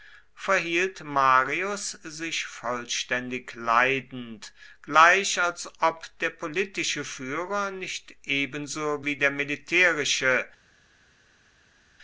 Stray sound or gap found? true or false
false